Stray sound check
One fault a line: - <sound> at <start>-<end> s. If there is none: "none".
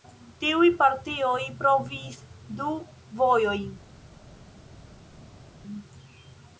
none